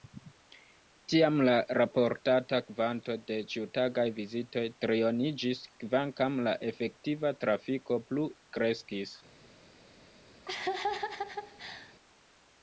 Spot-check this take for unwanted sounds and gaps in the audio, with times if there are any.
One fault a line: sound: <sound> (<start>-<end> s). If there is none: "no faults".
sound: laugh (10.5-11.9 s)